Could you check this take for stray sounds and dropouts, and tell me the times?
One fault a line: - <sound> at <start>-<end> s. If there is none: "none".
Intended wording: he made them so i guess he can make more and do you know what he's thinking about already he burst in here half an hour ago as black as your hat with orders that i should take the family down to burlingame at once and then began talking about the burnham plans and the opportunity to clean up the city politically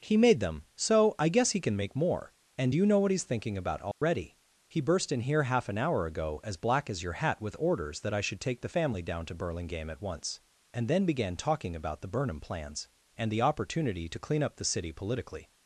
- dropout at 3.9-4.0 s